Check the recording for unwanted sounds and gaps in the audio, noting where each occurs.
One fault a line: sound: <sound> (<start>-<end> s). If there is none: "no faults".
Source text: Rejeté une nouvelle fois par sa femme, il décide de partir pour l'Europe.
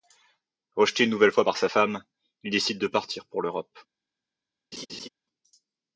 sound: laugh (4.7-5.1 s)